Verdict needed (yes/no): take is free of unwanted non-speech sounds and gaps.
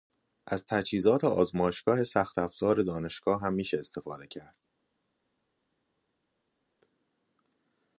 yes